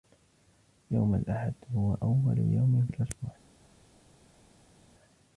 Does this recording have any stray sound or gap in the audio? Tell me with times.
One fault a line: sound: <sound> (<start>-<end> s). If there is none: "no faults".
no faults